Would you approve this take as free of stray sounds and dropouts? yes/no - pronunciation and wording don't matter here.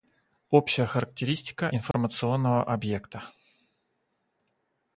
no